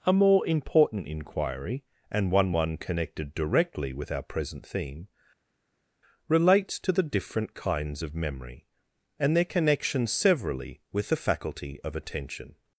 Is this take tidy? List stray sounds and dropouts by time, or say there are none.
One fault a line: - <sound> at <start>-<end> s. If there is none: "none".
none